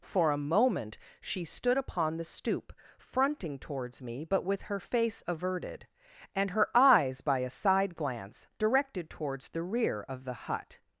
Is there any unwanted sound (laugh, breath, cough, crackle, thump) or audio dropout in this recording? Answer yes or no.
no